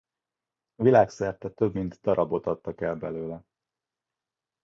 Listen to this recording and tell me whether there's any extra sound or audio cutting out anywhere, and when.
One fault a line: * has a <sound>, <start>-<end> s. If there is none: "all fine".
all fine